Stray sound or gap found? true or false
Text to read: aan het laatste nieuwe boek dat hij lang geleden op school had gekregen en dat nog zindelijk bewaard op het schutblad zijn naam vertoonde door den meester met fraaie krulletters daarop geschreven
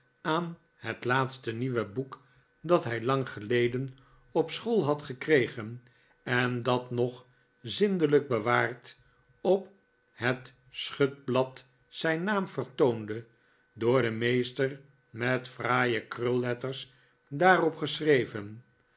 false